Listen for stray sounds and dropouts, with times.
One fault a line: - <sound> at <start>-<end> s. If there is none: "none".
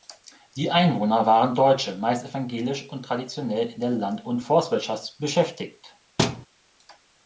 - thud at 6.2-6.5 s